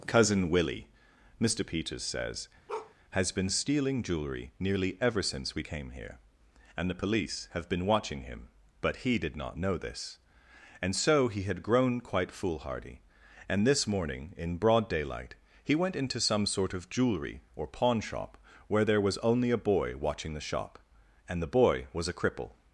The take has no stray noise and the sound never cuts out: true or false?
false